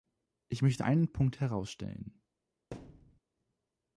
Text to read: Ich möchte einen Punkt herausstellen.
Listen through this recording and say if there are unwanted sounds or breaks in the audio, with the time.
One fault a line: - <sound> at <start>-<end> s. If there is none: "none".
- thud at 2.7-3.2 s